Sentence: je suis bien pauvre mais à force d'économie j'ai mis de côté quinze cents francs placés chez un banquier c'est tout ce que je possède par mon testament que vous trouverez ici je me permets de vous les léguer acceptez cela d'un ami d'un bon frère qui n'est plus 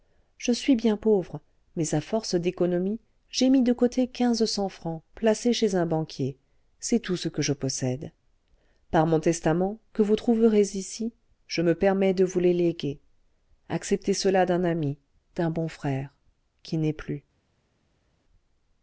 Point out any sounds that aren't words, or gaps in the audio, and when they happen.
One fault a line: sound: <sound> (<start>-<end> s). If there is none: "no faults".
no faults